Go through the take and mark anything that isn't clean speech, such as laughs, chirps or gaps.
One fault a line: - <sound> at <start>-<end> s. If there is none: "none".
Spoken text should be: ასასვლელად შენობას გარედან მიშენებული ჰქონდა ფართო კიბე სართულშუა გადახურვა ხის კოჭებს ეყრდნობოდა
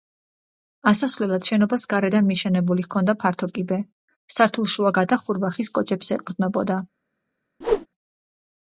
- whoosh at 7.6-7.9 s